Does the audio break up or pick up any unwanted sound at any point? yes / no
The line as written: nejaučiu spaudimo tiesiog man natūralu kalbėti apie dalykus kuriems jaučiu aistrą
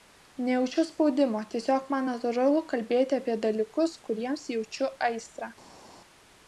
no